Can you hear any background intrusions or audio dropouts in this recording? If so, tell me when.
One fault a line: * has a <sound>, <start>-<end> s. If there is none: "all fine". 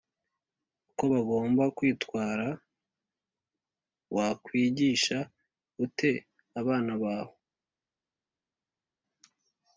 all fine